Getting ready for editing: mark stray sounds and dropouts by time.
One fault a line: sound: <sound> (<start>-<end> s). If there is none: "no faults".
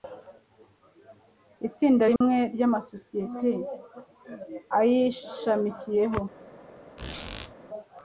sound: dropout (2.2-2.2 s)
sound: squeak (7.0-7.5 s)